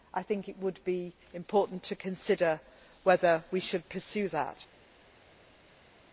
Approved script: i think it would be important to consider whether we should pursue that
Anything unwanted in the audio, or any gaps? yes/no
no